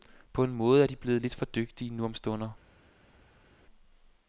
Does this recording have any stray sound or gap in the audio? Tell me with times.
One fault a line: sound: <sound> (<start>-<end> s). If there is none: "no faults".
no faults